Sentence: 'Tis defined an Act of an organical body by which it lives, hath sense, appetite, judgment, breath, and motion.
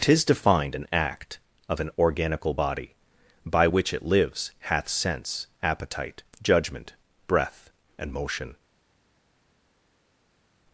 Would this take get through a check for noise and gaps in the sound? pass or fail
pass